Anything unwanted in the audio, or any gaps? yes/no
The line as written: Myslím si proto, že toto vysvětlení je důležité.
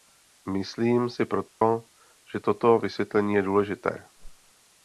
yes